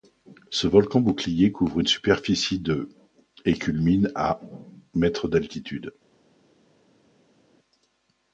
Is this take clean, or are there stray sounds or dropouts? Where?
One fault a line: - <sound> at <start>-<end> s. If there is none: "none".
none